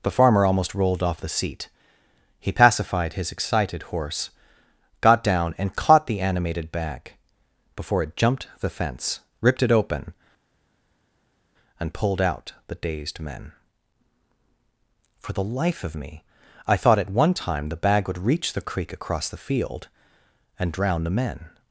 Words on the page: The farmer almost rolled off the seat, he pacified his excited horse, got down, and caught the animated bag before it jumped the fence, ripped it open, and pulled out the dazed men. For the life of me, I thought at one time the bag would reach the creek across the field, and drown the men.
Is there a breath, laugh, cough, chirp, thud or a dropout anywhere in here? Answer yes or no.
no